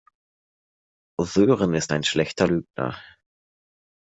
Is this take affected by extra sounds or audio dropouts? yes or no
no